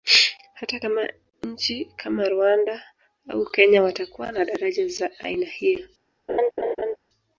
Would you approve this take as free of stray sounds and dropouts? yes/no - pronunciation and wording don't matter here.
no